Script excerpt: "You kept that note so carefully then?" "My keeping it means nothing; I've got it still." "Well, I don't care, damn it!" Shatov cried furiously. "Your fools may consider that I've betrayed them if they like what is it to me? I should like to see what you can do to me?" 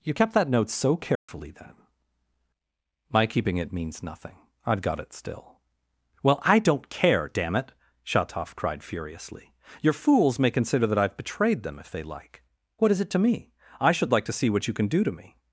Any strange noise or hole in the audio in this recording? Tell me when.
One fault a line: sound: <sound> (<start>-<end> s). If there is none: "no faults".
sound: dropout (1.2-1.3 s)